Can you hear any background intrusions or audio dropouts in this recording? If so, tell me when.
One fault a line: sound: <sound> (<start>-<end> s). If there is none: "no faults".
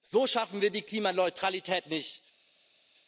no faults